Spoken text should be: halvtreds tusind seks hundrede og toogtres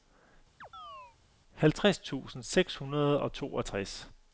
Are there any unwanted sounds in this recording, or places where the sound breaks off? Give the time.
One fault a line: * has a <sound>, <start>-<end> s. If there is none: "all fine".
* has a chirp, 0.6-1.2 s